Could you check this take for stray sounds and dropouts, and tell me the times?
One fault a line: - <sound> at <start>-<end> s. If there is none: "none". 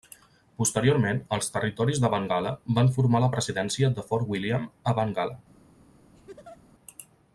- laugh at 6.1-6.6 s